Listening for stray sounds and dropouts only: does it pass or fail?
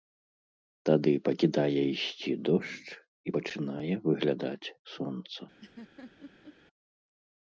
fail